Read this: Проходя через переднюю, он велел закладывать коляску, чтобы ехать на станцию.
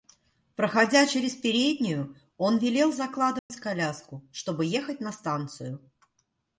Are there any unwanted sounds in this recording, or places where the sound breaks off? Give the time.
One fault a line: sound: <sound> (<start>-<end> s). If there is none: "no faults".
sound: dropout (3.4-3.5 s)